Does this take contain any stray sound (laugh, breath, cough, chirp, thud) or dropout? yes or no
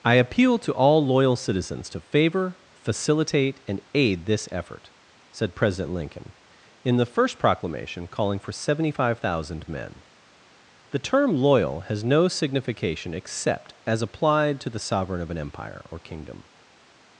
no